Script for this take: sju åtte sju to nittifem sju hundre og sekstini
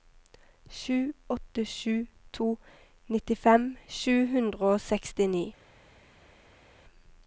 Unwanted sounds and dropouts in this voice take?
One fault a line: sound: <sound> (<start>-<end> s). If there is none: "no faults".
no faults